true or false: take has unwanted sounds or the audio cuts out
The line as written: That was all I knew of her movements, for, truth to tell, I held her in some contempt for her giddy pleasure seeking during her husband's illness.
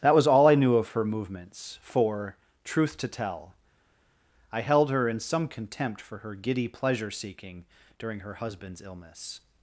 false